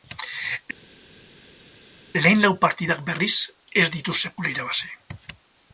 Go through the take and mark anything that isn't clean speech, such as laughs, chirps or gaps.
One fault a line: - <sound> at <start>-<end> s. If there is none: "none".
none